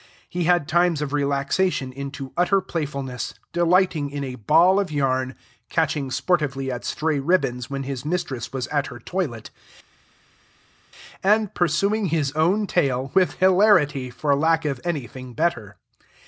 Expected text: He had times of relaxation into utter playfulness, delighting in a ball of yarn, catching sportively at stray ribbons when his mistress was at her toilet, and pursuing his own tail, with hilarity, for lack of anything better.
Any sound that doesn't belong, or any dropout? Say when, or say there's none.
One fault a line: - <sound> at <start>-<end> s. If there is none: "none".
none